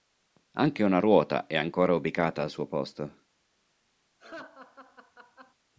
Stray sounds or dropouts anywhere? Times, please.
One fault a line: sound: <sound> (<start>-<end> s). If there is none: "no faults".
sound: laugh (4.2-5.6 s)